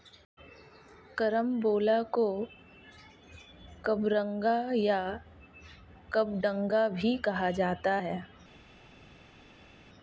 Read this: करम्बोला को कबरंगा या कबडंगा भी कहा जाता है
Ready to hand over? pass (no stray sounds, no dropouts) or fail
pass